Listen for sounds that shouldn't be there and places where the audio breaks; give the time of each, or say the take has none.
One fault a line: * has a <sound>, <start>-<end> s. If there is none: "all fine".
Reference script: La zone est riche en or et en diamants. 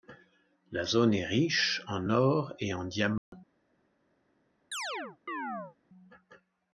* has a dropout, 3.2-3.3 s
* has a chirp, 4.7-5.8 s